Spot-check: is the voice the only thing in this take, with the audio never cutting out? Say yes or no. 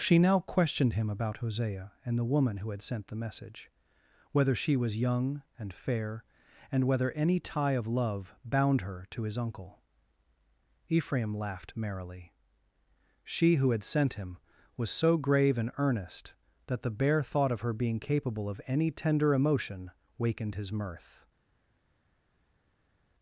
yes